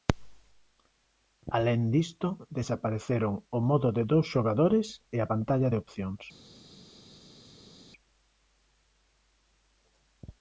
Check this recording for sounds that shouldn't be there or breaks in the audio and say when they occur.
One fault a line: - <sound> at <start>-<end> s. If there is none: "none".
none